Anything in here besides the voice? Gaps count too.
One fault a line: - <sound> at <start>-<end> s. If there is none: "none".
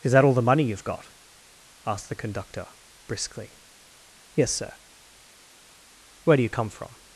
none